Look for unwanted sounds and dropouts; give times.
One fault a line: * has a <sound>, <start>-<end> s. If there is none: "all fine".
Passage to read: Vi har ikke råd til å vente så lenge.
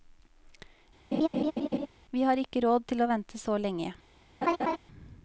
* has a laugh, 1.1-1.9 s
* has a laugh, 4.4-4.8 s